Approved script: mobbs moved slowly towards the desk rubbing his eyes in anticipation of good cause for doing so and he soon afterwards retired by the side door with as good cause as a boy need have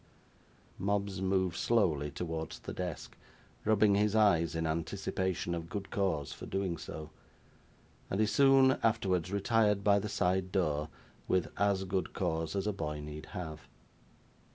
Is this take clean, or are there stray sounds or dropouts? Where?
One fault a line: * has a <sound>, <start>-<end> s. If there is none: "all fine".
all fine